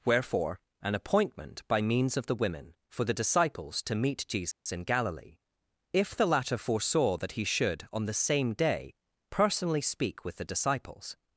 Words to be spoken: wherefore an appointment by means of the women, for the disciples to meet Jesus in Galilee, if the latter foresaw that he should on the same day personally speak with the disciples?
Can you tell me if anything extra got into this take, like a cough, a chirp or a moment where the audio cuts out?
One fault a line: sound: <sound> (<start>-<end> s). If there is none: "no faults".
sound: dropout (4.5-4.7 s)